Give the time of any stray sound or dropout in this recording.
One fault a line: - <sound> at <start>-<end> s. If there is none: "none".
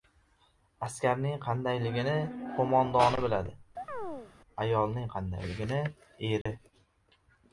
- chirp at 3.8-4.3 s
- dropout at 6.4-6.5 s